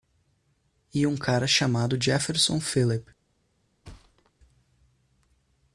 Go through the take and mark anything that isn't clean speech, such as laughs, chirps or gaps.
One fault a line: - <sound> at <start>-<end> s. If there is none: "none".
- thud at 3.8-4.3 s